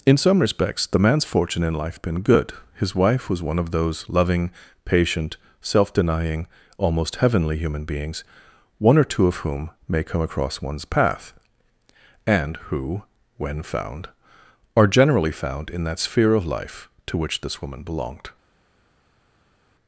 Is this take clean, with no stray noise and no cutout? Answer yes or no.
yes